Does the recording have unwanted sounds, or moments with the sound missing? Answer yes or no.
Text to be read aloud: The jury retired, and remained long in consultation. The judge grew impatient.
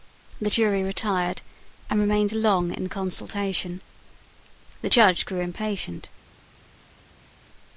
no